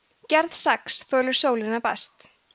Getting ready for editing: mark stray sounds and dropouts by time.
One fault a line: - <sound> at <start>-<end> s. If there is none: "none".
none